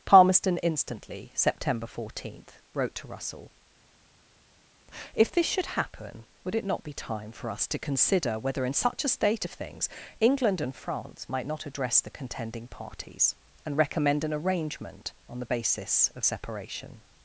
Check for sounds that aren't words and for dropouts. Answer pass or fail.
pass